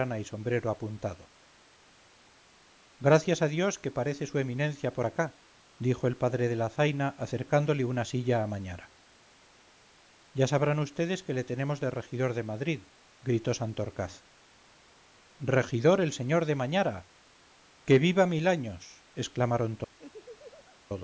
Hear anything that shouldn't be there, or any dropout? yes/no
yes